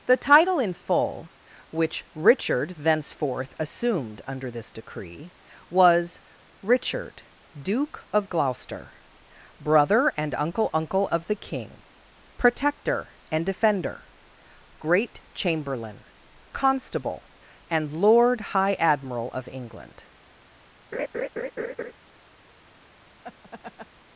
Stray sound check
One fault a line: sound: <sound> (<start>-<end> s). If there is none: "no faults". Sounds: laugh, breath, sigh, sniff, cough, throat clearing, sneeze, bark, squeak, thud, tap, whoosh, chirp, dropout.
sound: laugh (20.9-21.9 s)
sound: laugh (23.2-23.9 s)